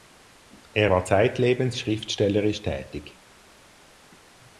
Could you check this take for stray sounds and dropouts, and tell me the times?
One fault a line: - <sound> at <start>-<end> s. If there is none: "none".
none